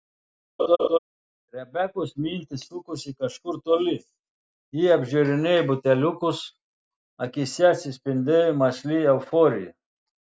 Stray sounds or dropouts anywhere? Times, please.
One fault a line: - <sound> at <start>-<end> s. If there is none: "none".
- laugh at 0.6-1.0 s